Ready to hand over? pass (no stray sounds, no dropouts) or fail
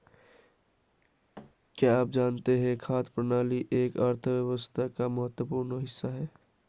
fail